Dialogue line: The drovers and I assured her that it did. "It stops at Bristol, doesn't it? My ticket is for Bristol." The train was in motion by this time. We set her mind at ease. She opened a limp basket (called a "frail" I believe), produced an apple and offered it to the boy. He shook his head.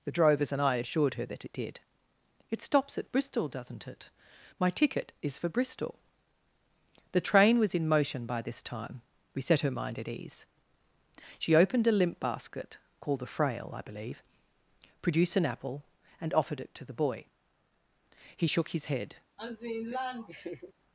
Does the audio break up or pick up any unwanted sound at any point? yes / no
yes